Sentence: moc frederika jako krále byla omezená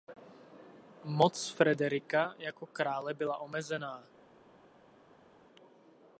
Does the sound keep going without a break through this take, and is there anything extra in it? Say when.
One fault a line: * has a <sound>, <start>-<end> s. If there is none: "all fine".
all fine